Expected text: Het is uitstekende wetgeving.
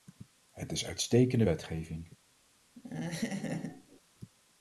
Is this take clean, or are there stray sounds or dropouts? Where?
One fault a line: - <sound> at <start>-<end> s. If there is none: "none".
- laugh at 2.8-4.0 s